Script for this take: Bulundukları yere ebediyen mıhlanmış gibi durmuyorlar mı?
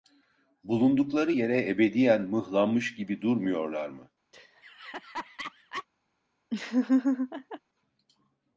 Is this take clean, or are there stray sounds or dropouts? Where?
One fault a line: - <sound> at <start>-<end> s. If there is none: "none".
- laugh at 4.3-5.9 s
- laugh at 6.5-7.6 s